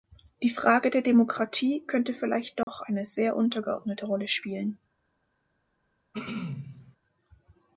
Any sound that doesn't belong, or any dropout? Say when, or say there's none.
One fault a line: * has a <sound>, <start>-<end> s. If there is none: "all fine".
* has a dropout, 2.6-2.7 s
* has a throat clearing, 6.1-7.0 s